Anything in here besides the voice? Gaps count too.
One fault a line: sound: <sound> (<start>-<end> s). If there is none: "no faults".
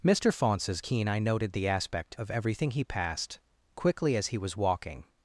no faults